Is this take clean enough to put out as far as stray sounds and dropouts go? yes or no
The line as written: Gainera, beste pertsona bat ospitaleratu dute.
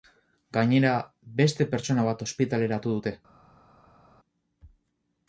yes